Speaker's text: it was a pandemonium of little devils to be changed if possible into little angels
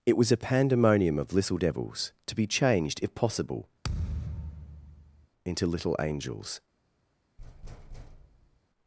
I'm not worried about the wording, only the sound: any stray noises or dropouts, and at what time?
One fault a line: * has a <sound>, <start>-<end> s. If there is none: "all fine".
* has a thud, 3.8-5.3 s
* has a thud, 7.4-8.6 s